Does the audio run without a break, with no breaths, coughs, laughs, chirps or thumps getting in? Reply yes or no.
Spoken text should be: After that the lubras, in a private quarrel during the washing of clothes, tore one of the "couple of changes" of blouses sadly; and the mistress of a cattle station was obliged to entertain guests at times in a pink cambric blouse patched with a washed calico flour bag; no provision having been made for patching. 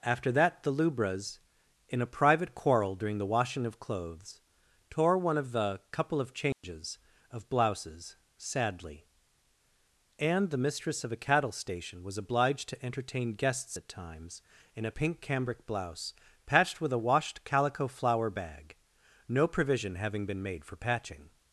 no